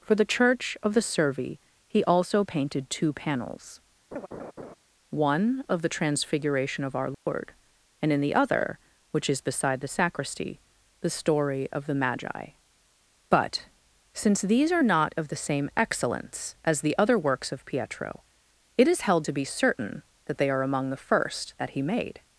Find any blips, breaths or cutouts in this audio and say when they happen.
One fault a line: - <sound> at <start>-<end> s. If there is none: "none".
- laugh at 4.1-4.7 s
- dropout at 7.1-7.3 s